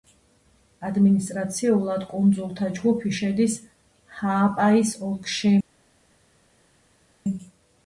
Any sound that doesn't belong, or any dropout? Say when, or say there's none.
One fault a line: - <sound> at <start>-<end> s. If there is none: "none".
none